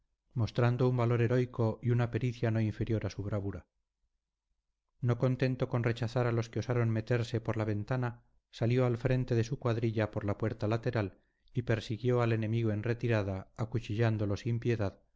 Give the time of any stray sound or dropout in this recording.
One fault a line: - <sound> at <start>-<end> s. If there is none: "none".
none